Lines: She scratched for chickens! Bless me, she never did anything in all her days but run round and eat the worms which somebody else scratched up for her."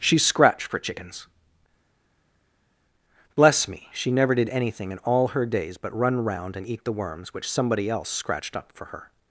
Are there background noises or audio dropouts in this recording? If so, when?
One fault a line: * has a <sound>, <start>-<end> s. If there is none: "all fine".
all fine